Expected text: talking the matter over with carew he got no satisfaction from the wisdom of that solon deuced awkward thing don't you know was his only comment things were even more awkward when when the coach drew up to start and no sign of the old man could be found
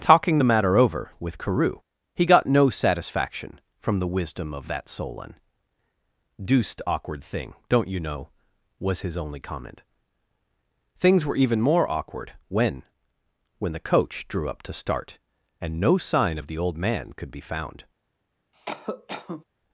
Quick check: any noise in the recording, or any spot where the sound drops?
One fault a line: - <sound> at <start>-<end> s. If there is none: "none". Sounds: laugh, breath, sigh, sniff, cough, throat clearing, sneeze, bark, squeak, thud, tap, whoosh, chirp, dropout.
- cough at 18.5-19.4 s